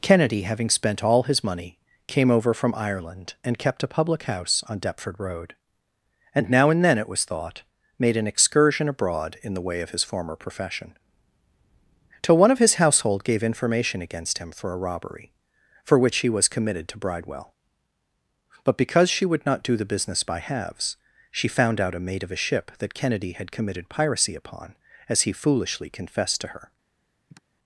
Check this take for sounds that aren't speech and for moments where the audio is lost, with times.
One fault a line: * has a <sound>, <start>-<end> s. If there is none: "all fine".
* has a sigh, 27.3-27.4 s